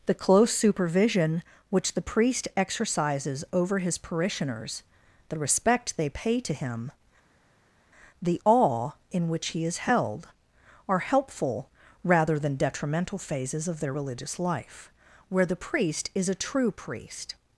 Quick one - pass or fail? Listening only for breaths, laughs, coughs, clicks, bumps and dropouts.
pass